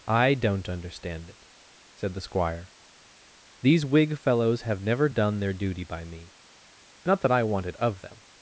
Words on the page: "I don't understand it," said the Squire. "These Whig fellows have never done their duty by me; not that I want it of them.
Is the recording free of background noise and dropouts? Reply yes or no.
yes